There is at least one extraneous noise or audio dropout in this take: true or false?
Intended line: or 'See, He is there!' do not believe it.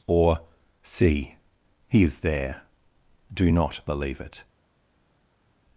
false